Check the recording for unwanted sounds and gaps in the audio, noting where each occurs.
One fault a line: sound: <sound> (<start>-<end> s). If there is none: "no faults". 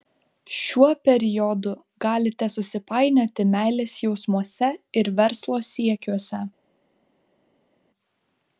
no faults